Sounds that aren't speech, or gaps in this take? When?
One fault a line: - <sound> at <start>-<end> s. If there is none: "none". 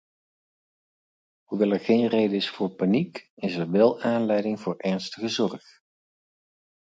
none